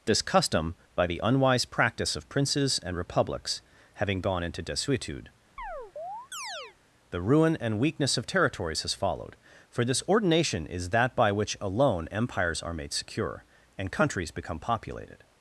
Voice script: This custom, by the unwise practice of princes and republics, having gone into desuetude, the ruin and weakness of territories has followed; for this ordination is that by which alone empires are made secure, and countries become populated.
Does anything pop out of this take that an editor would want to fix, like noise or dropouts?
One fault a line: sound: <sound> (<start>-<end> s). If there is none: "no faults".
sound: chirp (5.6-6.8 s)